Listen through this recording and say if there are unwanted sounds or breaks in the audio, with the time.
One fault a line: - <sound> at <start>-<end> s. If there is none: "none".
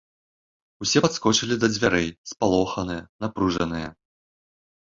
none